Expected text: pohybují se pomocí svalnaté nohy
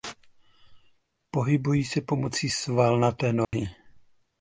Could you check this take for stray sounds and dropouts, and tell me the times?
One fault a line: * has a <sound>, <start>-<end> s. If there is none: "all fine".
* has a dropout, 3.4-3.5 s